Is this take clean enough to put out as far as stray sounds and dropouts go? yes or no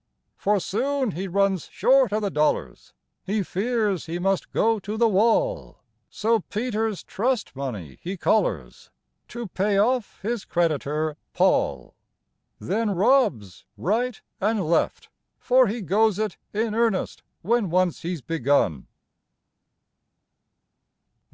yes